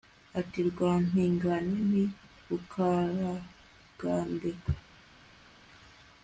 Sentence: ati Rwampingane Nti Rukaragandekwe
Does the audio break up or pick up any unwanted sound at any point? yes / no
no